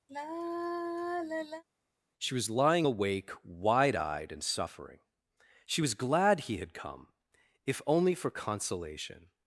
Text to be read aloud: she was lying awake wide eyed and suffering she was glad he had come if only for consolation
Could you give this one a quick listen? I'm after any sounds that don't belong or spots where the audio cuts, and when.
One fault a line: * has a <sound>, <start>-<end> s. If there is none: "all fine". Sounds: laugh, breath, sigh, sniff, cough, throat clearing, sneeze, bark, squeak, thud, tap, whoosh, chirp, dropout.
* has a sigh, 0.1-1.6 s